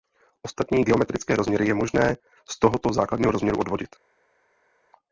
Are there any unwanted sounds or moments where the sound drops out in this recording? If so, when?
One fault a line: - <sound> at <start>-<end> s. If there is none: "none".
none